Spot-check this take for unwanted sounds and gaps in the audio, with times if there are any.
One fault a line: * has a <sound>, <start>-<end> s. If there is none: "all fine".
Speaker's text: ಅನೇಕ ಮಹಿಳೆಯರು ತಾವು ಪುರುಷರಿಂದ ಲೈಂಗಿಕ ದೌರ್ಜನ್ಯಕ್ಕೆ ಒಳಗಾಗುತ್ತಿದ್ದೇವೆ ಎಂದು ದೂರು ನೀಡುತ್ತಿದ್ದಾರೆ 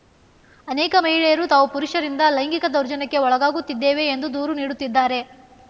all fine